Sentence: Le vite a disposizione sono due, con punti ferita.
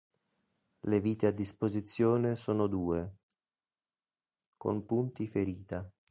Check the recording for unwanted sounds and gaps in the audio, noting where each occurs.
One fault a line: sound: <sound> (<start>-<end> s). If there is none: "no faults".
no faults